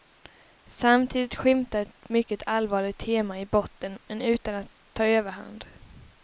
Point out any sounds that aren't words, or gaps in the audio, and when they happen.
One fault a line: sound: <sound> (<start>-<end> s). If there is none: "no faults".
no faults